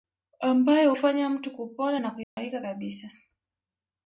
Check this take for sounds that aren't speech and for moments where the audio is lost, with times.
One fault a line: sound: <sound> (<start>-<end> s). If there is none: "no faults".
sound: dropout (2.2-2.4 s)